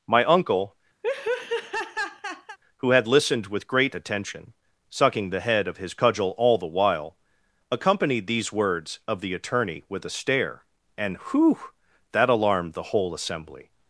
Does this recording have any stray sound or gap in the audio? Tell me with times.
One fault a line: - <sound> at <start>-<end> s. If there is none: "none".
- laugh at 1.0-2.6 s